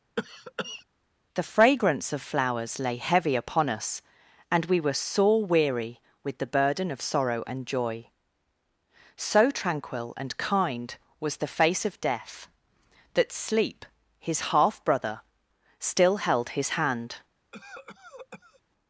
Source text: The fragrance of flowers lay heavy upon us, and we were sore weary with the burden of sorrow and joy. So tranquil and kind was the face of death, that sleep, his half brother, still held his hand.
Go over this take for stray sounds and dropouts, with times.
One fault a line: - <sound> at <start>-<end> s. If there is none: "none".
- cough at 0.2-0.8 s
- cough at 17.5-18.6 s